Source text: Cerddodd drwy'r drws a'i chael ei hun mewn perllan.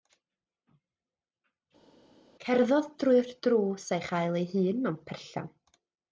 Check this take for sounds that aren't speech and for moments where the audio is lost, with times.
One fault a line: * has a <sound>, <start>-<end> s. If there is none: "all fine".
all fine